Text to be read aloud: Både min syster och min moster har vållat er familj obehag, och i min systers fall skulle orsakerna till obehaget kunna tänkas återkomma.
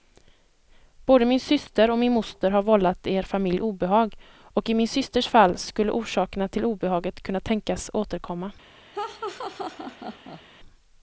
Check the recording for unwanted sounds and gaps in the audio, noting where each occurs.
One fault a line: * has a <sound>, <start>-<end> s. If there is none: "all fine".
* has a laugh, 8.9-10.4 s